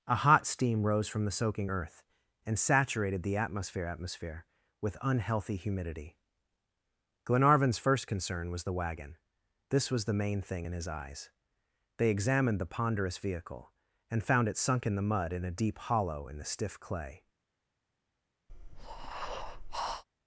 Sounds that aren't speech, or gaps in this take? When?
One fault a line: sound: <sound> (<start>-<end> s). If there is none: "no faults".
sound: breath (18.5-20.0 s)